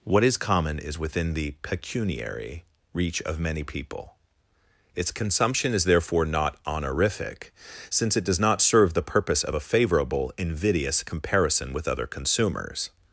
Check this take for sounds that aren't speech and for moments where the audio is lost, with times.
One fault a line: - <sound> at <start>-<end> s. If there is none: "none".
none